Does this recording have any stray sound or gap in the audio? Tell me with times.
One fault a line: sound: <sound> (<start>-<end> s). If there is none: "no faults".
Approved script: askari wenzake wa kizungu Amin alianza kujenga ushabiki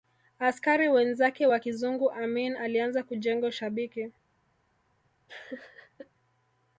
sound: laugh (5.3-6.1 s)